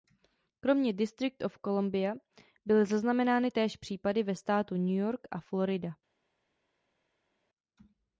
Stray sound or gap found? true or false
false